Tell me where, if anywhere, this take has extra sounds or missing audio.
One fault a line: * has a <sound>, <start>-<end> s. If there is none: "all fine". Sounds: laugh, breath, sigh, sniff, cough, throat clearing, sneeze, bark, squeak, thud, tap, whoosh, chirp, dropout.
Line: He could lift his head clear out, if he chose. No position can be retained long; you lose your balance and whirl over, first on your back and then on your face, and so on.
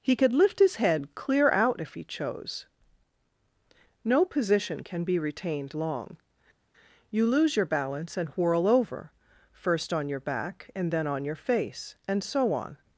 all fine